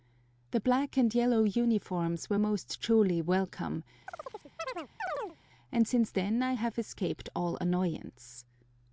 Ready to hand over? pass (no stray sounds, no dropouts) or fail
fail